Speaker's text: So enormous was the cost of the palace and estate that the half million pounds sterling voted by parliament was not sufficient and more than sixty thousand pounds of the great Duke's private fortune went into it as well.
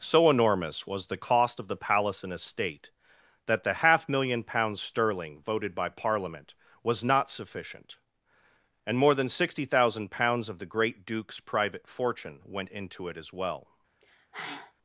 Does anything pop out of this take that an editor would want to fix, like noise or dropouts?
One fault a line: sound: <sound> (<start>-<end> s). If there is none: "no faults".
sound: sigh (14.0-14.7 s)